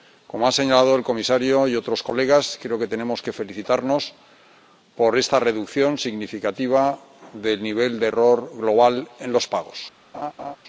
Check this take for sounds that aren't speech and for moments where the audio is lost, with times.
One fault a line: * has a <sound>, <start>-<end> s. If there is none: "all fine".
* has a laugh, 10.1-10.6 s